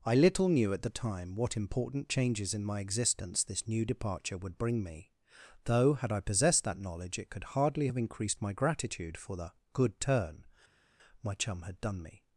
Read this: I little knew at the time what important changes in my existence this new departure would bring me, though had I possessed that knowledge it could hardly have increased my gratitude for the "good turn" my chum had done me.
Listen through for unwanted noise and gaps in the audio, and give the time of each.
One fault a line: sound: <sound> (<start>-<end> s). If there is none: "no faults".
no faults